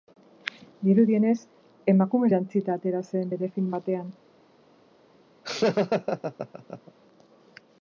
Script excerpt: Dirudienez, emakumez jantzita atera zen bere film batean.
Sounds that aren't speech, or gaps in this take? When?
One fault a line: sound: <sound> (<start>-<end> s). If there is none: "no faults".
sound: laugh (5.4-6.9 s)